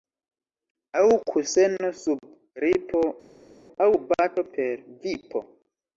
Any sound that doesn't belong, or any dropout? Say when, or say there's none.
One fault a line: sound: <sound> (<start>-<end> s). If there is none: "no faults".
no faults